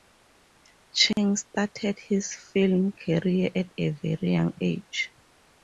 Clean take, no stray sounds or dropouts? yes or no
no